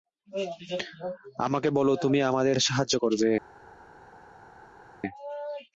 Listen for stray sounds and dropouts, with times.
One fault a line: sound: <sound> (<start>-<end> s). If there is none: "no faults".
no faults